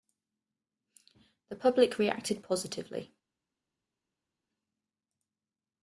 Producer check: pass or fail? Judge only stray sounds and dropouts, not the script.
pass